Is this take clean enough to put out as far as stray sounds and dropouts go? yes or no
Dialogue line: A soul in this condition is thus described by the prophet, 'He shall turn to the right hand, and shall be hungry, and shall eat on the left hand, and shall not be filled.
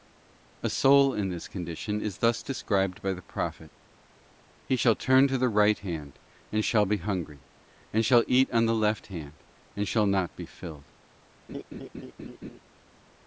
no